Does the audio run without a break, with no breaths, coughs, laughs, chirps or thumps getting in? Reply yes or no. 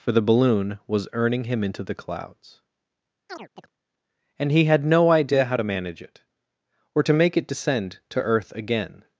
no